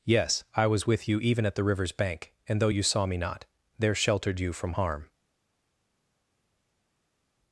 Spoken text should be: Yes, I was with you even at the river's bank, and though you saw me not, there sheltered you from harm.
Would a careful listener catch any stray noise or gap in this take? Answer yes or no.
no